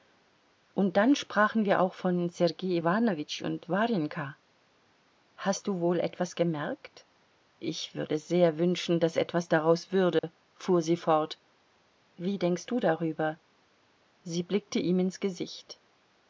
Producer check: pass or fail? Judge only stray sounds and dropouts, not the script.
fail